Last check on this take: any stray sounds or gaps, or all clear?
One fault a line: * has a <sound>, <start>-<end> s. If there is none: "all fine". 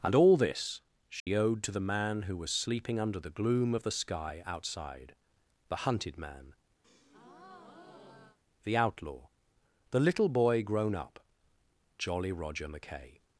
* has a dropout, 1.2-1.3 s
* has a breath, 6.8-8.4 s